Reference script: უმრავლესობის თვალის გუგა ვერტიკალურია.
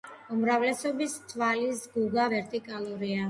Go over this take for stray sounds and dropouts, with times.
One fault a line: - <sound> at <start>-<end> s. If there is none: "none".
none